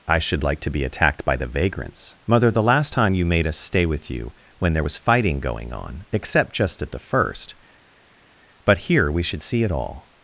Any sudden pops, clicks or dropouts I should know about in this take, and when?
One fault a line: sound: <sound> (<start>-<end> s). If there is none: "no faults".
no faults